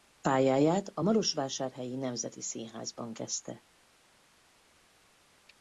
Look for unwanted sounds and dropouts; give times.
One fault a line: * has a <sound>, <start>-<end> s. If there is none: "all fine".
all fine